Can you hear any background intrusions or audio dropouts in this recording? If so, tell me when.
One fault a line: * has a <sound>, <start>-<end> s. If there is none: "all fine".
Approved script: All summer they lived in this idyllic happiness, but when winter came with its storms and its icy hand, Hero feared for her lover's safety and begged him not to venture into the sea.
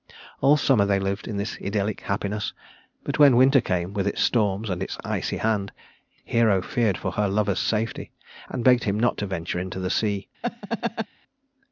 * has a laugh, 10.4-11.1 s